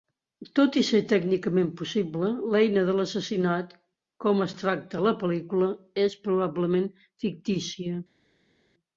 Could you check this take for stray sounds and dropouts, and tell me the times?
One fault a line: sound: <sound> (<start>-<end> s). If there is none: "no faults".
no faults